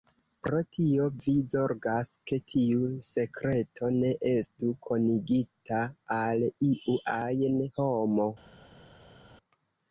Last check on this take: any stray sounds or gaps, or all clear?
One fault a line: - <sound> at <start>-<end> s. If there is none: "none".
none